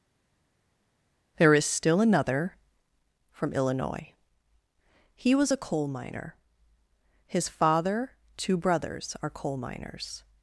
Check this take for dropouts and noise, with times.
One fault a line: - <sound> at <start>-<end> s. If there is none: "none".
none